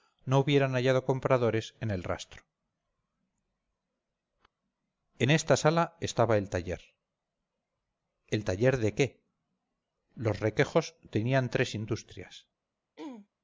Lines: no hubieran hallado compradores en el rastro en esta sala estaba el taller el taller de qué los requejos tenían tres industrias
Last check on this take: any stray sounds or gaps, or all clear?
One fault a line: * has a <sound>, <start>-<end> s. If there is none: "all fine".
* has a throat clearing, 13.0-13.3 s